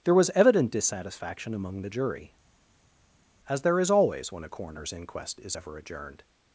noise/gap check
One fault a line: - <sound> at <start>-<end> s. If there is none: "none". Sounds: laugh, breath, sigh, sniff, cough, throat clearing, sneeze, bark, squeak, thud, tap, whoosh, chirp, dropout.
none